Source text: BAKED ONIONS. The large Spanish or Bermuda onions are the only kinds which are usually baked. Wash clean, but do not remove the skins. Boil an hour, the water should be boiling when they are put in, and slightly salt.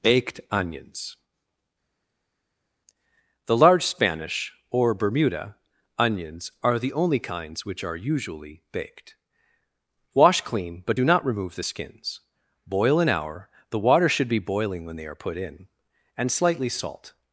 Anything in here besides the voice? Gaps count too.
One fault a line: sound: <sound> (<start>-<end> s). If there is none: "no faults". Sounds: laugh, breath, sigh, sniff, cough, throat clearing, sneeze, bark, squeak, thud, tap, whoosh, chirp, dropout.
no faults